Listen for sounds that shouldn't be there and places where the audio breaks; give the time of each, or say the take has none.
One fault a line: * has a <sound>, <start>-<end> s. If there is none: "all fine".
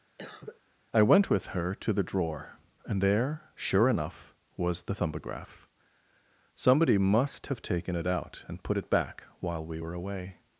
* has a cough, 0.2-0.6 s